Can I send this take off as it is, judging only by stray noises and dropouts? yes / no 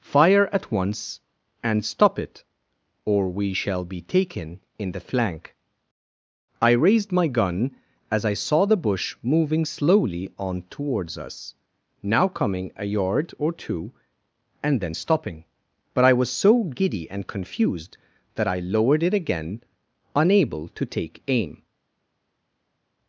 yes